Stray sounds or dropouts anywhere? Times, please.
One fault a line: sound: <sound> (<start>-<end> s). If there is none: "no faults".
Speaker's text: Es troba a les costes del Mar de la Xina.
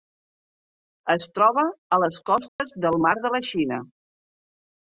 sound: dropout (2.5-2.6 s)